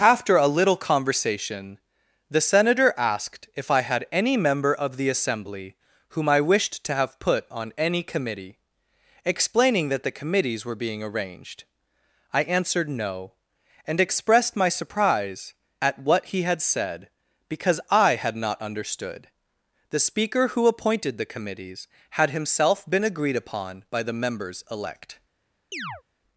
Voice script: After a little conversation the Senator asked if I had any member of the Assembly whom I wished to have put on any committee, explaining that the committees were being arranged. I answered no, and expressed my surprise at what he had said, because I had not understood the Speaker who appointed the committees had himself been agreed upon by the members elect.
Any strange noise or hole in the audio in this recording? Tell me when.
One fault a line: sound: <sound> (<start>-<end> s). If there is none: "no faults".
sound: chirp (25.7-26.0 s)